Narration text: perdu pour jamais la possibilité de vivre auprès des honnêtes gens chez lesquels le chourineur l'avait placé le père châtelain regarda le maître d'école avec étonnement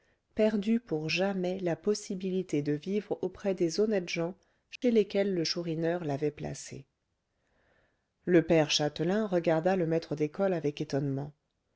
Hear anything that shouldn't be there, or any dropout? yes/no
yes